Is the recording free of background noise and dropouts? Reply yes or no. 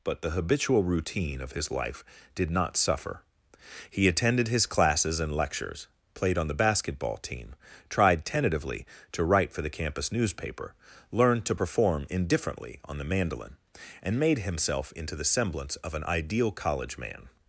yes